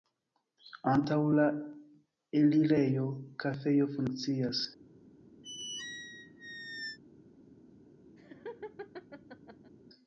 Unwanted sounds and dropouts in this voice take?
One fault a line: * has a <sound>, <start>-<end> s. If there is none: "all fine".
* has a squeak, 5.4-7.0 s
* has a laugh, 8.2-9.7 s